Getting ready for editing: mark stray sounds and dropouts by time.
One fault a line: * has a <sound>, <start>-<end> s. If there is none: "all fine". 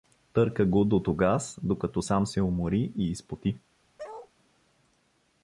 * has a bark, 4.0-4.3 s